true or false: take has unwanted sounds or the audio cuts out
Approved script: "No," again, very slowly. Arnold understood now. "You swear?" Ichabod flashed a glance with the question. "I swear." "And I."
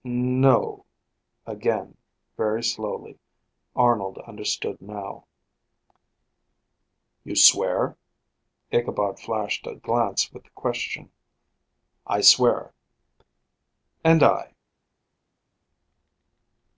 false